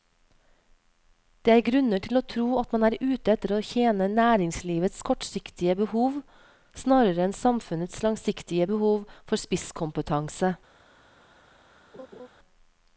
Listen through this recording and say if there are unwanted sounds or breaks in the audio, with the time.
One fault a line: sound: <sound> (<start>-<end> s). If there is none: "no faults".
sound: laugh (11.9-12.3 s)